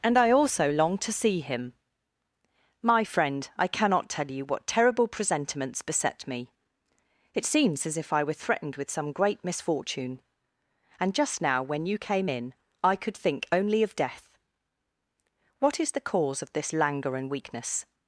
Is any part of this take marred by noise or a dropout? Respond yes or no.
no